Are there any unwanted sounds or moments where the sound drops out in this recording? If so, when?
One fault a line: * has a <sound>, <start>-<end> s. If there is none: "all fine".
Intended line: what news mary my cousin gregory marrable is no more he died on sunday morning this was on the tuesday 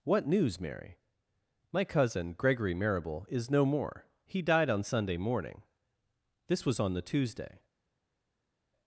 all fine